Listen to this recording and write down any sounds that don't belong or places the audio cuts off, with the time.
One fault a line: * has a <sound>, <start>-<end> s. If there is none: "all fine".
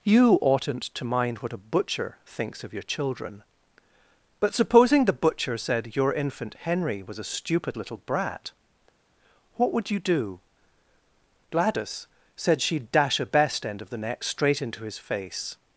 all fine